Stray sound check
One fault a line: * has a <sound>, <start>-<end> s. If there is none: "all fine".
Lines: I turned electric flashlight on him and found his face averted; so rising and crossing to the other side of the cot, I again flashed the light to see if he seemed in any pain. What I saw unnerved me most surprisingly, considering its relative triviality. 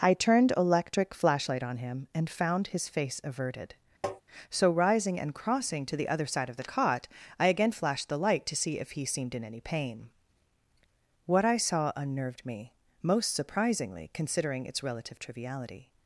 * has a tap, 4.0-4.2 s